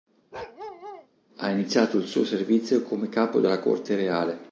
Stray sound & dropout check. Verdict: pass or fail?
fail